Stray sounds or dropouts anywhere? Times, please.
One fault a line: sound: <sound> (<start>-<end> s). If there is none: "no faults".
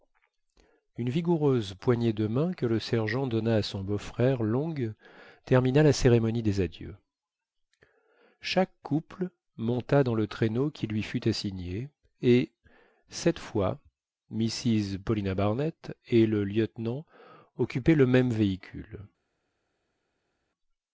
no faults